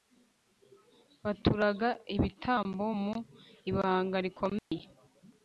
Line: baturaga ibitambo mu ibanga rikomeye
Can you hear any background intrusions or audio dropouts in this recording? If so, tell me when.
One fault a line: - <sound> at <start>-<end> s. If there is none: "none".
- dropout at 4.6-4.7 s